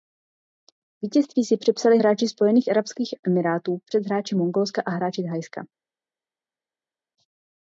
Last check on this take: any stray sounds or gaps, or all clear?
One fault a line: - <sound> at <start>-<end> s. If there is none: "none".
none